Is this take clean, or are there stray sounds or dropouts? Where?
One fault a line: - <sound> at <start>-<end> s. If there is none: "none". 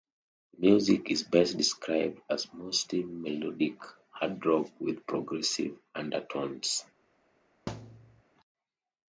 - thud at 7.7-8.2 s